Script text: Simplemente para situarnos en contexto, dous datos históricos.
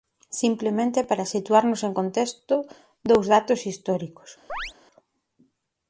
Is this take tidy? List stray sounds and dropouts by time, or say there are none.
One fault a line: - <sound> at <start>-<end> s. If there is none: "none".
- chirp at 4.5-4.7 s